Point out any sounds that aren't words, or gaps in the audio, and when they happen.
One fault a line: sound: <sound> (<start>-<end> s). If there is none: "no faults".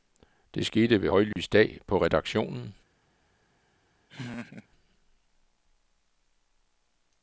sound: dropout (1.3-1.4 s)
sound: laugh (4.1-4.7 s)